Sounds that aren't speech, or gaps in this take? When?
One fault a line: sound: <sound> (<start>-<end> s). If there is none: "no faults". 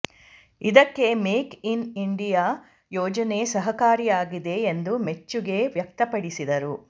no faults